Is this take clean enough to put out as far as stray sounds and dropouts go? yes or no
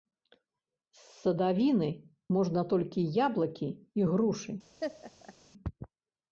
no